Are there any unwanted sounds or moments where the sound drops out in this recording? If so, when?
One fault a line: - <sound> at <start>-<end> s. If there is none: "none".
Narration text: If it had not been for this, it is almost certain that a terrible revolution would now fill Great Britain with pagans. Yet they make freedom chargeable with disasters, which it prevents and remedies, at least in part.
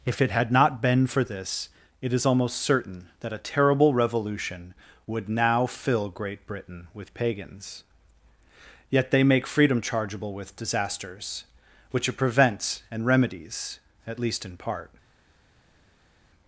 none